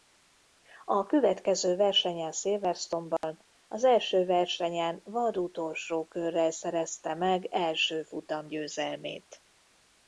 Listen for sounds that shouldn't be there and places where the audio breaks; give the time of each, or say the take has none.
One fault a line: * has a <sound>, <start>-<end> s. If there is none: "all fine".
* has a dropout, 3.2-3.2 s